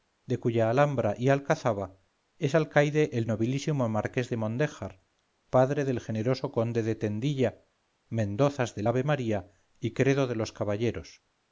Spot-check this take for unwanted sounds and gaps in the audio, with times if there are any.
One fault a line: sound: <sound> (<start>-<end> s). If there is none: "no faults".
no faults